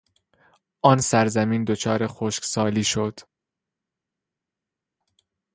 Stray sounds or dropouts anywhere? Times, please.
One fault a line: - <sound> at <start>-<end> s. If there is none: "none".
none